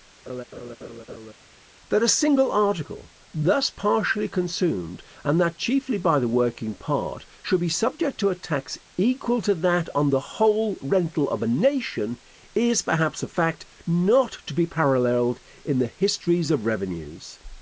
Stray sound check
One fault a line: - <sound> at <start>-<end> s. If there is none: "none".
- laugh at 0.3-1.3 s